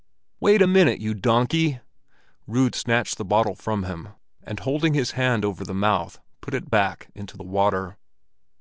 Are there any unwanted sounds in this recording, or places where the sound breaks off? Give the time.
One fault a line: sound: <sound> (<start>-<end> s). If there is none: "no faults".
no faults